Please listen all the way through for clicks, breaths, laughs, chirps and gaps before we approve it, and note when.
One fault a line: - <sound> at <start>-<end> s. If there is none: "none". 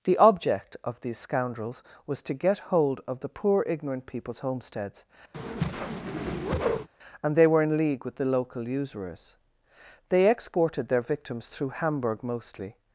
- whoosh at 5.3-6.9 s